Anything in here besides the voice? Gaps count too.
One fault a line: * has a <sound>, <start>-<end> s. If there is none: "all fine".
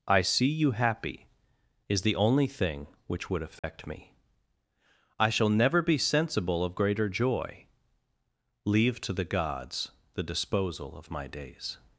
* has a dropout, 3.6-3.6 s